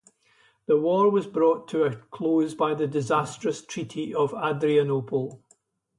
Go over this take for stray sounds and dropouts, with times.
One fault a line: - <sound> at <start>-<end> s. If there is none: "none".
none